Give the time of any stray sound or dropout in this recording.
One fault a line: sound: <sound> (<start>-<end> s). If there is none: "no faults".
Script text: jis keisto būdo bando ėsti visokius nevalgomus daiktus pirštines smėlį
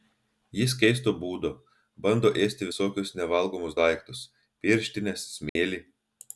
sound: dropout (5.5-5.6 s)